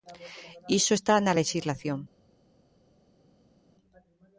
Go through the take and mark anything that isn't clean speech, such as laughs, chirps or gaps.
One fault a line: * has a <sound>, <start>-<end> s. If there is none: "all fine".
all fine